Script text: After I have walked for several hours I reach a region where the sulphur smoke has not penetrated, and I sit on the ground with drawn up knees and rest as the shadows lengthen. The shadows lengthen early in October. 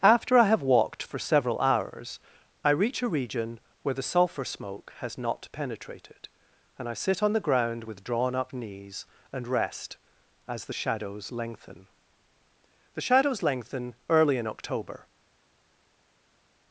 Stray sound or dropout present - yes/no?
no